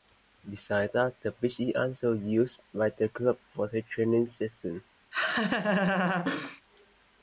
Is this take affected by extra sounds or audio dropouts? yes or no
yes